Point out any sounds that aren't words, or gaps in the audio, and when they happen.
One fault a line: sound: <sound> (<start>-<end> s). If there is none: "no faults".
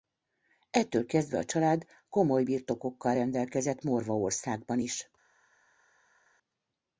no faults